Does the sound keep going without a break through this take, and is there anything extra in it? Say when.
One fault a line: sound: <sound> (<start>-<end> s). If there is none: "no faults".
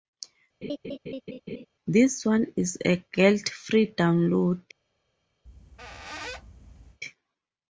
sound: laugh (0.6-1.7 s)
sound: squeak (5.5-7.0 s)